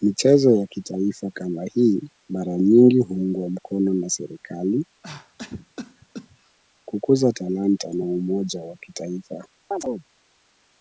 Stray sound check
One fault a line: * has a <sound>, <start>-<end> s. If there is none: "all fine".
* has a cough, 5.0-6.6 s
* has a chirp, 9.7-10.0 s